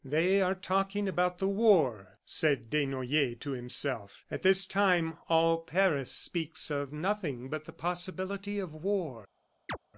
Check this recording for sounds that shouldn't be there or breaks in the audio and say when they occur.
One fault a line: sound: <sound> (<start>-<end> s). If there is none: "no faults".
sound: chirp (9.7-9.8 s)